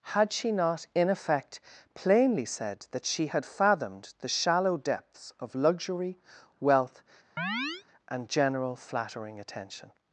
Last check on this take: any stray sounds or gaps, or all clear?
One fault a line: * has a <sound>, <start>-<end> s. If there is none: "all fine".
* has a chirp, 7.4-7.8 s